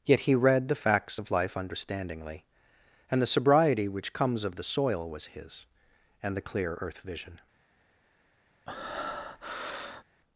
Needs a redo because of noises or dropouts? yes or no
yes